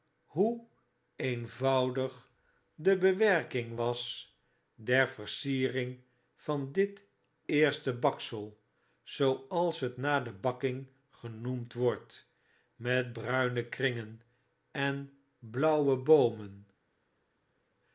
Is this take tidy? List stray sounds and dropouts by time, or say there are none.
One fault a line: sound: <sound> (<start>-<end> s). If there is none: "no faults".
no faults